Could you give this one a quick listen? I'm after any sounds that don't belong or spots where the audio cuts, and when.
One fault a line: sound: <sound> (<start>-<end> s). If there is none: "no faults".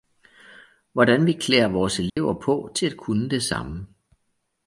sound: dropout (2.1-2.2 s)